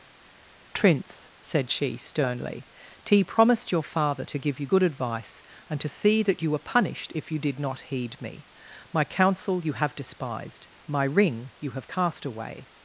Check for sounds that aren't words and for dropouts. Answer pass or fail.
pass